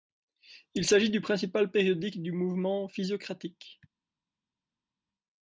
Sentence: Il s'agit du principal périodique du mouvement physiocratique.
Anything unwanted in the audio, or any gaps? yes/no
no